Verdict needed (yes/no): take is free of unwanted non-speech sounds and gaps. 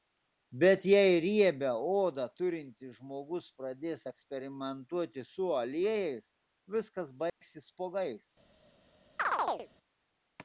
no